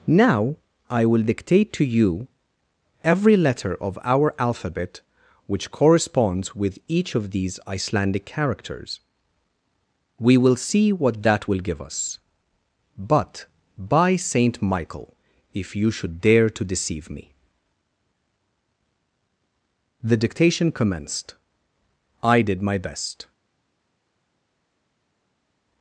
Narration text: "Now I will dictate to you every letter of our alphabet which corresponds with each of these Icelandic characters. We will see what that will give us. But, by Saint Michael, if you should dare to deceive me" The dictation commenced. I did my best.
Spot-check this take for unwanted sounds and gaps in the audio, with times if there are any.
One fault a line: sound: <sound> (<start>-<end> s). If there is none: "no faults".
no faults